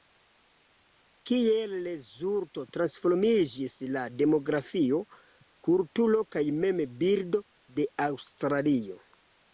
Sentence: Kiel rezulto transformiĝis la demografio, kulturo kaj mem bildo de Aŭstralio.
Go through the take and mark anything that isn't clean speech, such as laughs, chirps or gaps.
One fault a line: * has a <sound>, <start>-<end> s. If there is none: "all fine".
all fine